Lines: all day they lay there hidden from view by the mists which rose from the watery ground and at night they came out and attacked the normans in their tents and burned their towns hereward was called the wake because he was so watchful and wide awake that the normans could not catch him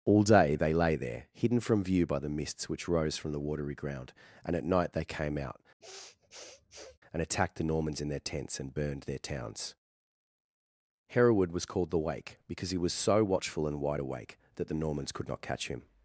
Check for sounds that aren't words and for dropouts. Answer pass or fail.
fail